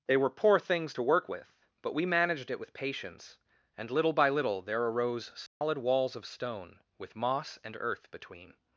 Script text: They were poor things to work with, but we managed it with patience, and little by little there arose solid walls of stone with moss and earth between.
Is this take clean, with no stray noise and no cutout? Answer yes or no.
no